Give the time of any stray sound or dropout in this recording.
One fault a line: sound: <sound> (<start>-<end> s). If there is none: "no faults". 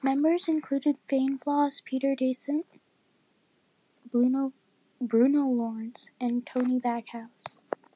no faults